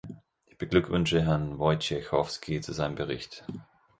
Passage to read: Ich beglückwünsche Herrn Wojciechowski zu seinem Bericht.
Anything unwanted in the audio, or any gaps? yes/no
no